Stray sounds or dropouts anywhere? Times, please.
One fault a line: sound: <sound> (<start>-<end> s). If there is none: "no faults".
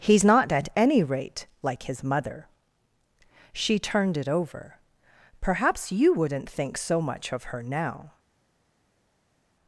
no faults